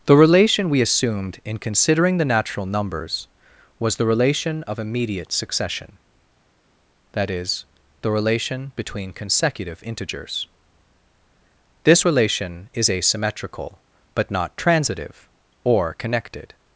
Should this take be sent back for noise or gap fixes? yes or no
no